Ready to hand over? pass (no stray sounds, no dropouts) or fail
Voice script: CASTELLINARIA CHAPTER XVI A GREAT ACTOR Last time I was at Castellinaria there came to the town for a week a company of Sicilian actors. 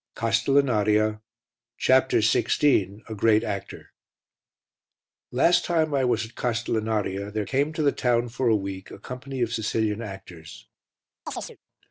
fail